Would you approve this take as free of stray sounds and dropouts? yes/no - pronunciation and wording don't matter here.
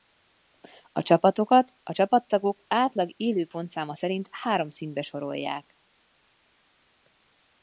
yes